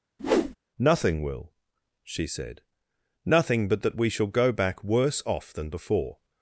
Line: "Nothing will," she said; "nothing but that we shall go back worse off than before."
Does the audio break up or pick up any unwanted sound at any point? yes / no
yes